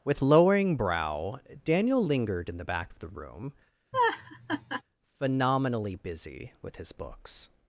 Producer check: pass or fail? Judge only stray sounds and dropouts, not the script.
fail